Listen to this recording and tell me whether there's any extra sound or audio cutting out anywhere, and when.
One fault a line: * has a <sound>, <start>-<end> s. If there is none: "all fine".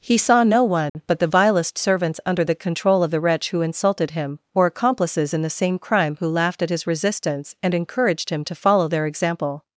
* has a dropout, 0.9-0.9 s